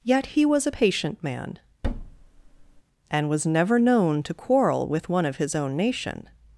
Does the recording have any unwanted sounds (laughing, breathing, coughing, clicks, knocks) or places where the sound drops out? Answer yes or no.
yes